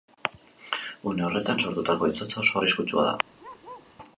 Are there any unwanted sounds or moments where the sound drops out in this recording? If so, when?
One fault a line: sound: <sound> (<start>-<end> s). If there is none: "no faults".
sound: bark (3.4-3.9 s)